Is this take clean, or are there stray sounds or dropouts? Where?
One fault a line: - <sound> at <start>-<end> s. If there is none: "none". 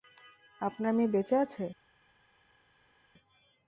none